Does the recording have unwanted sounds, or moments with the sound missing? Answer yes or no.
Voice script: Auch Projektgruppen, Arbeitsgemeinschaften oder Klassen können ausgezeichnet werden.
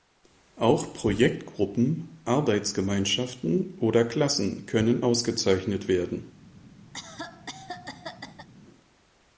yes